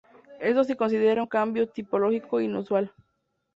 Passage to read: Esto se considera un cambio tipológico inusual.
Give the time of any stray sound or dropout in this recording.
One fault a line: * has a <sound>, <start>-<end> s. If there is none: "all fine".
all fine